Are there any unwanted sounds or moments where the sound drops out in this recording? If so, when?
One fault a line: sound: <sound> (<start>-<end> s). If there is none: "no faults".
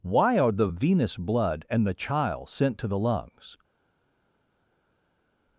no faults